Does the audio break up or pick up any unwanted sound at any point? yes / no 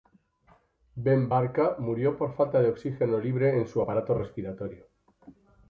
no